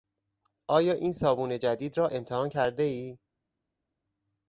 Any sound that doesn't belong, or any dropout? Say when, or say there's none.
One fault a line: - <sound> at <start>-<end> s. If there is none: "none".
none